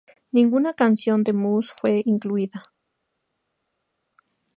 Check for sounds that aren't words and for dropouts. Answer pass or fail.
pass